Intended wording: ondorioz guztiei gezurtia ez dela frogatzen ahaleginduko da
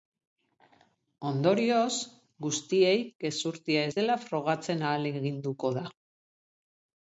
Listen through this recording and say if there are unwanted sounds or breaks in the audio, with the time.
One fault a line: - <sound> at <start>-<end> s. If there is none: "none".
none